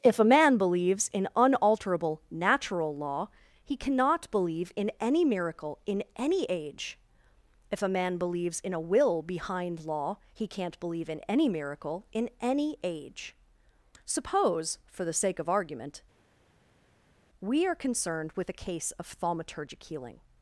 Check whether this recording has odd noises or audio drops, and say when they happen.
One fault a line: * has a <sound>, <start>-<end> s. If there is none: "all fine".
all fine